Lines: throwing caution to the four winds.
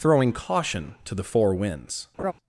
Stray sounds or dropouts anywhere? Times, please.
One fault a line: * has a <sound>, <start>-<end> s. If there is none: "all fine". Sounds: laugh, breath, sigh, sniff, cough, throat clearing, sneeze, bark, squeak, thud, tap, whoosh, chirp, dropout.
* has a laugh, 2.2-2.3 s